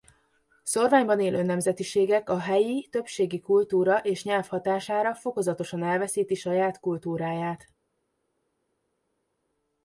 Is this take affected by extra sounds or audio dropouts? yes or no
no